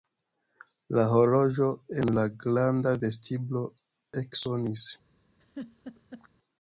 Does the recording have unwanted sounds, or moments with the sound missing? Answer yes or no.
yes